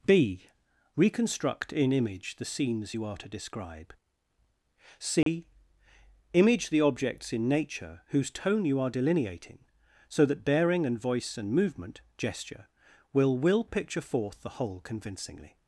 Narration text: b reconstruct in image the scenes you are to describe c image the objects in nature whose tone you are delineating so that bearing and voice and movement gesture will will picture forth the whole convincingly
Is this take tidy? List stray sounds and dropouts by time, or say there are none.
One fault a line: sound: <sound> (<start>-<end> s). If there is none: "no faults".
sound: dropout (5.2-5.3 s)